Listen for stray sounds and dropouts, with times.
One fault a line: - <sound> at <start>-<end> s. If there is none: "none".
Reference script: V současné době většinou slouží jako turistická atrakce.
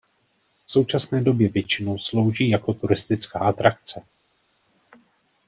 none